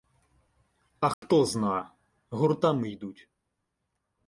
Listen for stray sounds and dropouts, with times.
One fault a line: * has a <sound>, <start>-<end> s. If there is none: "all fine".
* has a dropout, 1.1-1.2 s